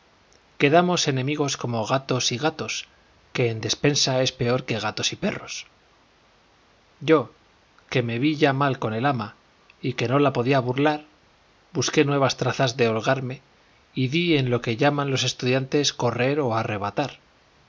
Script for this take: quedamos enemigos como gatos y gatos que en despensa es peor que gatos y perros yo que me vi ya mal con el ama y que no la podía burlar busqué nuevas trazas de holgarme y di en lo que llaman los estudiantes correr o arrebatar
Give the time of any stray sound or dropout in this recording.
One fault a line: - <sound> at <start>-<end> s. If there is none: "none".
none